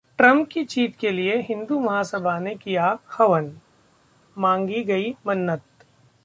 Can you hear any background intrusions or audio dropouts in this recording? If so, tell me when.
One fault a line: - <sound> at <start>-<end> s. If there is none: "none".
none